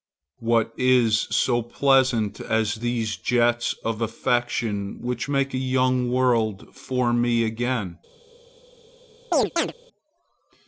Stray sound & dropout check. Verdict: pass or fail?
fail